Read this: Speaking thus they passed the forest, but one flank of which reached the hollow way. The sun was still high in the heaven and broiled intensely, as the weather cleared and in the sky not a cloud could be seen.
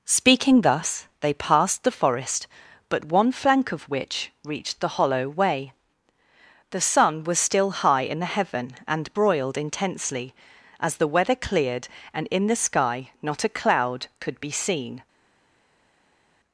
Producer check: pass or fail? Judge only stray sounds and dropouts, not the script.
pass